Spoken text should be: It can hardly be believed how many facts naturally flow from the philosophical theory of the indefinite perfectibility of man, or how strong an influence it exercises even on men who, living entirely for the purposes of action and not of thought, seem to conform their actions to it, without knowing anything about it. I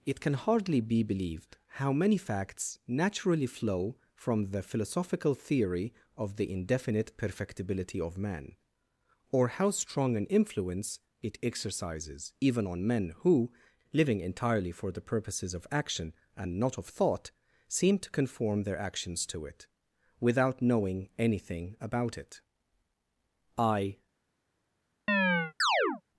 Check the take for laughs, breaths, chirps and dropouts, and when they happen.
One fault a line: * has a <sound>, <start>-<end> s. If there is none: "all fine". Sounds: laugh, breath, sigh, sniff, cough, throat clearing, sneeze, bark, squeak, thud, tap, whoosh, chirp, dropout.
* has a chirp, 25.1-26.0 s